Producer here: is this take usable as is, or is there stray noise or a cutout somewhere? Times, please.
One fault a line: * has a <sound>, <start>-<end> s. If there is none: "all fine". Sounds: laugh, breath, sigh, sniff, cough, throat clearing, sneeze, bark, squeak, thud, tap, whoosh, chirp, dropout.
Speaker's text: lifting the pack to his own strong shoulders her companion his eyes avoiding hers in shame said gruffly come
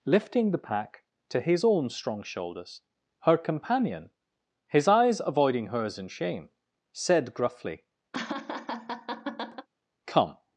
* has a laugh, 8.1-9.7 s